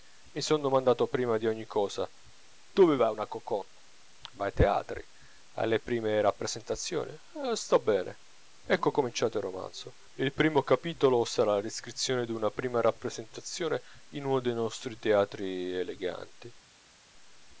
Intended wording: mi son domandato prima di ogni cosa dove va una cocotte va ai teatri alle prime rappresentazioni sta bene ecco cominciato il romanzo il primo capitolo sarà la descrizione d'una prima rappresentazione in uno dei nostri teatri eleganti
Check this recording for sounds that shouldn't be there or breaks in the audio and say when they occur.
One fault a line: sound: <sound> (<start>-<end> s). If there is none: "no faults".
no faults